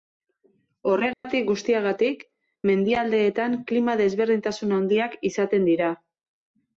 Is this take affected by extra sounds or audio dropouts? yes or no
yes